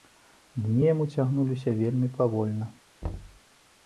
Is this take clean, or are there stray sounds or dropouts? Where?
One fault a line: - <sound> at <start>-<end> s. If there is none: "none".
- thud at 3.0-3.4 s